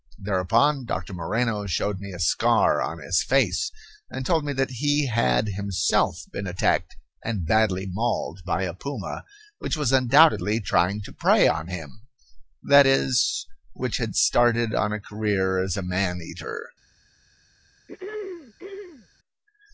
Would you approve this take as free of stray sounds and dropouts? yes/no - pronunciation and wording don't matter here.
no